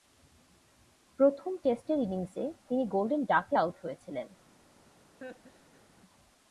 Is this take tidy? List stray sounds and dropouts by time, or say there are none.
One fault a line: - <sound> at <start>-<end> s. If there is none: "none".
- laugh at 5.2-5.8 s